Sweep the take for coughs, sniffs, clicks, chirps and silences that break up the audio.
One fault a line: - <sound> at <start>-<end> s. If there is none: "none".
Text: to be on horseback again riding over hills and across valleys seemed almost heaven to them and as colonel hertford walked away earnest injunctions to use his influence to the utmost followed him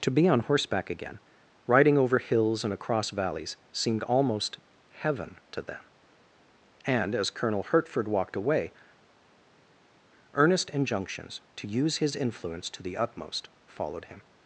none